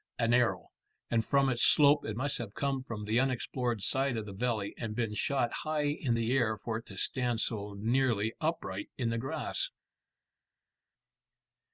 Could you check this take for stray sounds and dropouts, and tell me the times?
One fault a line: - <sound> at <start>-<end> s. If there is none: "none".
none